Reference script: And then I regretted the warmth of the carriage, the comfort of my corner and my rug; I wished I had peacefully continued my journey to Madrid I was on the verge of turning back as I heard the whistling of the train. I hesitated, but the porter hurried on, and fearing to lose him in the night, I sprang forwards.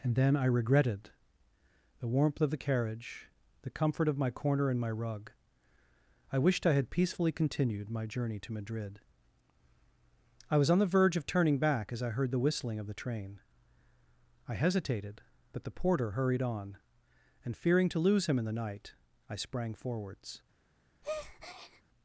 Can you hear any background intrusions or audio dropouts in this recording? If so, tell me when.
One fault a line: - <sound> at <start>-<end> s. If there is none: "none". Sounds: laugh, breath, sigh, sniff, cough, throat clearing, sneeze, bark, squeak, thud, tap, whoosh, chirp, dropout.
- breath at 21.0-21.8 s